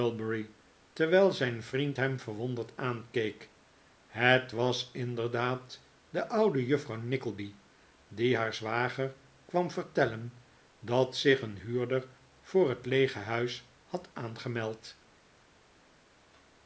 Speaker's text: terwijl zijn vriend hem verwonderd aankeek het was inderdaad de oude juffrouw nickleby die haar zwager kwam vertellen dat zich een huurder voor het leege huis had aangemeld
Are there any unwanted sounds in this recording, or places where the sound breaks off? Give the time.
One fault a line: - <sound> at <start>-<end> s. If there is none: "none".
none